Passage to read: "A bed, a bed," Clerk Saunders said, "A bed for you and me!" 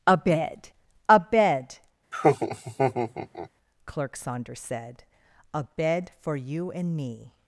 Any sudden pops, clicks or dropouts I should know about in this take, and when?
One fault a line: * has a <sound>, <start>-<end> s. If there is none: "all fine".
* has a laugh, 2.1-3.5 s